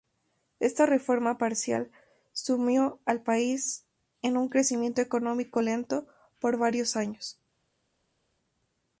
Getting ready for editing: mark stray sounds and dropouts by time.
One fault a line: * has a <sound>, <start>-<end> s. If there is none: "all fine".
all fine